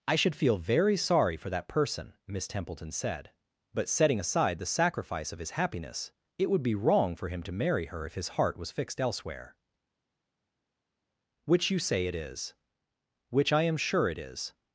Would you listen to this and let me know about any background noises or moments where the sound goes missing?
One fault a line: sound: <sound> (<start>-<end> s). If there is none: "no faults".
no faults